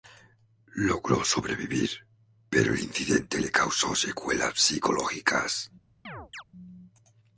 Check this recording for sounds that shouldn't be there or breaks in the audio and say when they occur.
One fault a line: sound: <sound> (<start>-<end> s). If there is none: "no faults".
sound: chirp (6.0-6.4 s)